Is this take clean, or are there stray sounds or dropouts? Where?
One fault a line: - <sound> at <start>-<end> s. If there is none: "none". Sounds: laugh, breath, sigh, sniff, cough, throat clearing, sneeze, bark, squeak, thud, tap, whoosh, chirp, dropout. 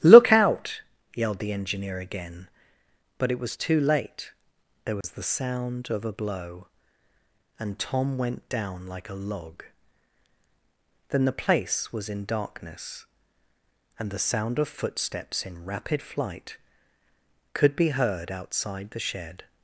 - dropout at 5.0-5.0 s